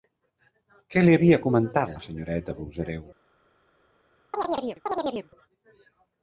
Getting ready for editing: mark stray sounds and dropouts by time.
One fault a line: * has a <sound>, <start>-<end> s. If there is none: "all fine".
* has a chirp, 4.3-5.3 s